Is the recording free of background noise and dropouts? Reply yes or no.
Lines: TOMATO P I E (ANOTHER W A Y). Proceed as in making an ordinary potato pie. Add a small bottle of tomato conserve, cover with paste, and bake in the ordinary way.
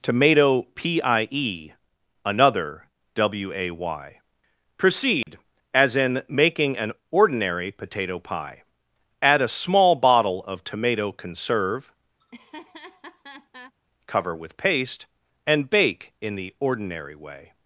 no